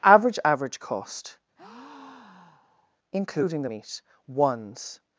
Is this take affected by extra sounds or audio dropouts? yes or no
yes